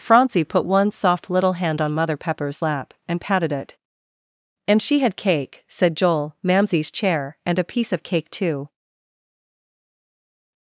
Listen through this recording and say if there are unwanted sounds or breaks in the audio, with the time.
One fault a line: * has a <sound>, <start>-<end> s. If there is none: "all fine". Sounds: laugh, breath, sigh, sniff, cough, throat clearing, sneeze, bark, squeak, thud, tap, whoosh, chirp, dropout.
all fine